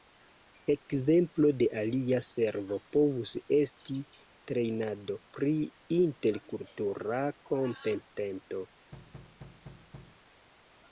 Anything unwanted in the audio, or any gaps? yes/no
yes